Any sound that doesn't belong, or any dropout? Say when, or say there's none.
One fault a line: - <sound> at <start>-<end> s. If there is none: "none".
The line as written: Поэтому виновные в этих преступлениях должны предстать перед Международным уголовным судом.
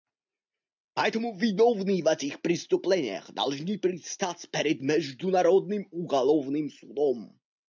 none